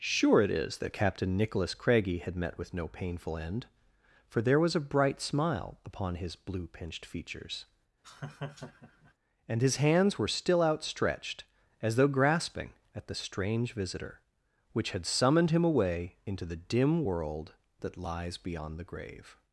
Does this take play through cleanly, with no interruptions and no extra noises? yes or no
no